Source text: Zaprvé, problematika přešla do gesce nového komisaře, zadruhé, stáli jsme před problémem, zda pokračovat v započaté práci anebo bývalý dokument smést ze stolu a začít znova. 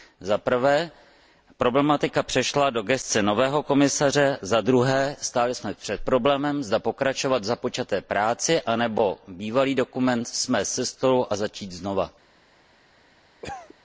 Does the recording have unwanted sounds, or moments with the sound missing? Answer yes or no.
yes